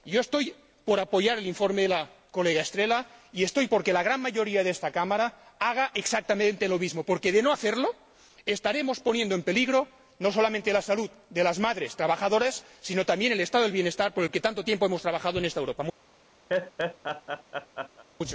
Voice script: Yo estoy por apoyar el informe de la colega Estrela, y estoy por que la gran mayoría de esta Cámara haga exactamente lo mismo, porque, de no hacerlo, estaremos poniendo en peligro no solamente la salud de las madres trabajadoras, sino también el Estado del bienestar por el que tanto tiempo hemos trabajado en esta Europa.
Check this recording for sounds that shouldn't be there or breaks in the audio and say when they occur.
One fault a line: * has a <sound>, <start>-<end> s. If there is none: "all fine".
* has a laugh, 16.5-18.0 s